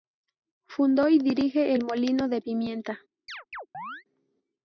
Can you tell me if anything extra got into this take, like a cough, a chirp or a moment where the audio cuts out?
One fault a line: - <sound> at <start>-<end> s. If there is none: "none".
- chirp at 3.3-4.0 s